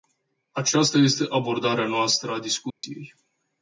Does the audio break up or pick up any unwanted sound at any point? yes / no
yes